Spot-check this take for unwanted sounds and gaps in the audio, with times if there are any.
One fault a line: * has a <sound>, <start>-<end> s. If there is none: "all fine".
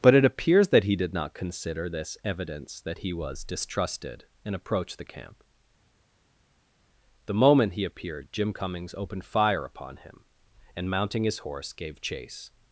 all fine